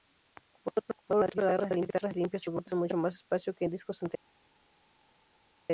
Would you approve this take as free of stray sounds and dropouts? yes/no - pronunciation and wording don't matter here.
yes